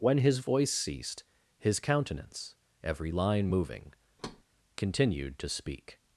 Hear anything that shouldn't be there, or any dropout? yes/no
yes